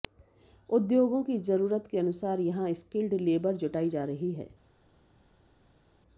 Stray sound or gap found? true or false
false